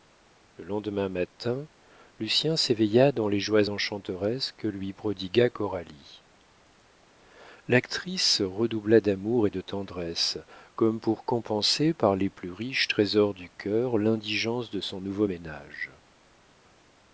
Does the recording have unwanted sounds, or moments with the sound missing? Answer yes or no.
no